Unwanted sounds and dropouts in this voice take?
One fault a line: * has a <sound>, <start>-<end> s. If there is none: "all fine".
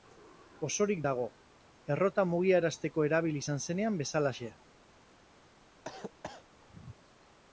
* has a cough, 5.8-6.4 s